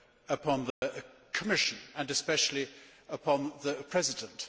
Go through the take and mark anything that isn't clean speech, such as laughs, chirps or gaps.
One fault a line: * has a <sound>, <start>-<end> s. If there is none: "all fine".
* has a dropout, 0.7-0.8 s